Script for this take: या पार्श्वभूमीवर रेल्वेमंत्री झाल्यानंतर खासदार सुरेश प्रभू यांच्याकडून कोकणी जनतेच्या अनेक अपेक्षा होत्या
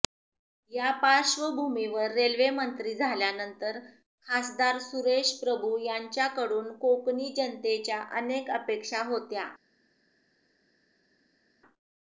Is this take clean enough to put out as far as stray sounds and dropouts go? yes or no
yes